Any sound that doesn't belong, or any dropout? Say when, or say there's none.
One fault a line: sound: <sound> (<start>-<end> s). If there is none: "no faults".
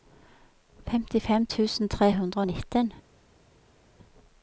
no faults